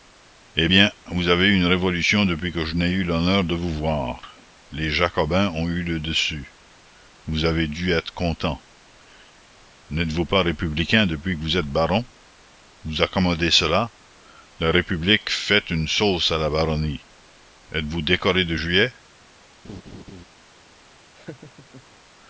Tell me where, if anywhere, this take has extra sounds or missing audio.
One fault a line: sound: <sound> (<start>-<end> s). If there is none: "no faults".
sound: laugh (19.6-20.2 s)
sound: laugh (21.2-21.8 s)